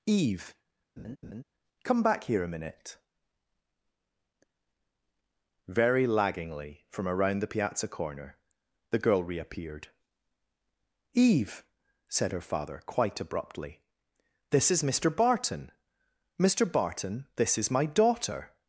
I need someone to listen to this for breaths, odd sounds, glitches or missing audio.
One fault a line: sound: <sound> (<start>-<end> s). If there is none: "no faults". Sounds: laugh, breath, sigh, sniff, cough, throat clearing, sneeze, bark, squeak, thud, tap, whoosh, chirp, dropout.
sound: laugh (1.0-1.4 s)